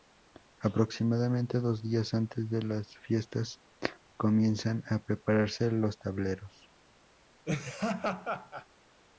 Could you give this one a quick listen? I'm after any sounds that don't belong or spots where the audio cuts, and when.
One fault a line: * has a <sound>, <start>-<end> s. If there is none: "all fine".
* has a laugh, 7.4-8.7 s